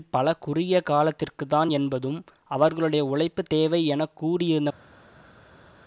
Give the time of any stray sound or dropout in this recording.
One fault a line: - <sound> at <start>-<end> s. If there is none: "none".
none